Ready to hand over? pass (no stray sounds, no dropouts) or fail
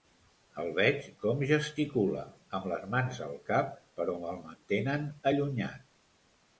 pass